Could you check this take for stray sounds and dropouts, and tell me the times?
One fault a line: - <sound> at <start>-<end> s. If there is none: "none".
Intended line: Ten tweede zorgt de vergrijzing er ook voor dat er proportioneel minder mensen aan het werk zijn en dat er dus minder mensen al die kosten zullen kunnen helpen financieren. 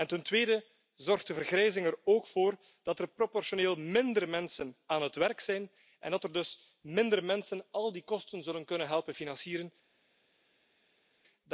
none